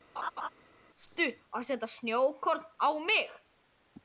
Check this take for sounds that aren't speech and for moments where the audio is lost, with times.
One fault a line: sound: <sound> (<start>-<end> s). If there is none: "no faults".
sound: laugh (0.2-0.5 s)